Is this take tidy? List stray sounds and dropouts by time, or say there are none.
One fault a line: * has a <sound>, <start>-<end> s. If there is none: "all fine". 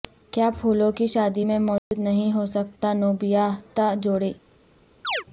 * has a dropout, 1.8-1.9 s
* has a chirp, 5.0-5.2 s